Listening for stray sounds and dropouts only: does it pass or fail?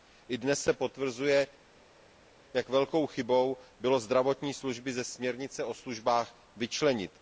pass